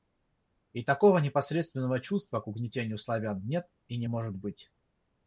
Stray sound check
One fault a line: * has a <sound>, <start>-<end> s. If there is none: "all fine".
all fine